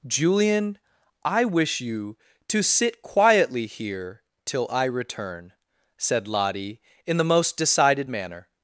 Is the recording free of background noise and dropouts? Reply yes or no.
yes